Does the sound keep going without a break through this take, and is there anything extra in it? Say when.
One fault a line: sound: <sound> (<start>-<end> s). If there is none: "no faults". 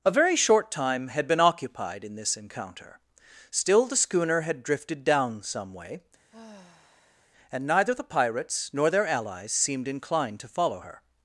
sound: sigh (6.3-7.3 s)